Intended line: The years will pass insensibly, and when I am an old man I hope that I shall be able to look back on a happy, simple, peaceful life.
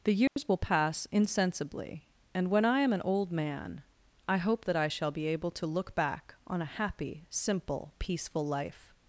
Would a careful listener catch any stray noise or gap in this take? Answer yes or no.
yes